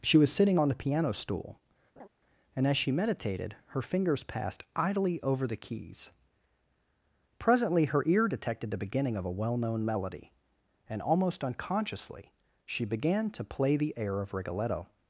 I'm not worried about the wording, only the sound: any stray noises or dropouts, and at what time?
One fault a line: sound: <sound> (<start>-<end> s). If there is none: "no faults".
sound: laugh (2.0-2.1 s)